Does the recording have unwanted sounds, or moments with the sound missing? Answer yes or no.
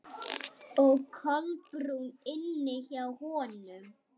no